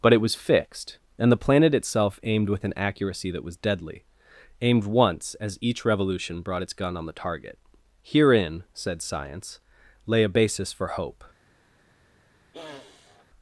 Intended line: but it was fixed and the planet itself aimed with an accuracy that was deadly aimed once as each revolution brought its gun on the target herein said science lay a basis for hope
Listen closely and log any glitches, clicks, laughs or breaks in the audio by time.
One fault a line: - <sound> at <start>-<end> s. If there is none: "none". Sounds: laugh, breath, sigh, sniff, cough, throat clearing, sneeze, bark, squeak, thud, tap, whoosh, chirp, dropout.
- sniff at 12.5-13.3 s